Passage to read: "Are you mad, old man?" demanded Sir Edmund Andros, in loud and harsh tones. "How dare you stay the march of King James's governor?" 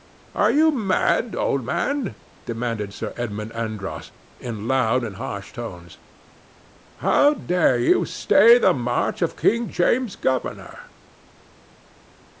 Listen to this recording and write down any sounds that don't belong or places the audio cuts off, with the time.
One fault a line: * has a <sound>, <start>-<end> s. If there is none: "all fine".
all fine